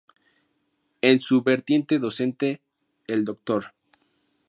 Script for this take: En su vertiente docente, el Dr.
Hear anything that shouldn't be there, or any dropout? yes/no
no